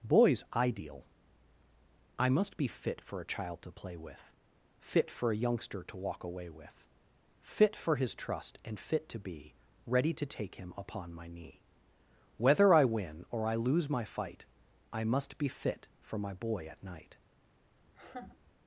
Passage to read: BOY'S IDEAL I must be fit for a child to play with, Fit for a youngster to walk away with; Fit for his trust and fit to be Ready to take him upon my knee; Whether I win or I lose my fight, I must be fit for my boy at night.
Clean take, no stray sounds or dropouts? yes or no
no